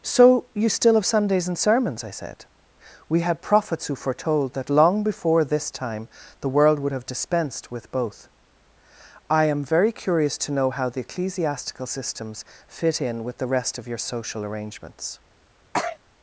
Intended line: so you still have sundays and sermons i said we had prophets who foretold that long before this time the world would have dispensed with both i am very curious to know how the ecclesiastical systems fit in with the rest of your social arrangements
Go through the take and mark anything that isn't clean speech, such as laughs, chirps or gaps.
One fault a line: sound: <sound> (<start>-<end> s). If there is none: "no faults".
sound: sneeze (15.7-16.0 s)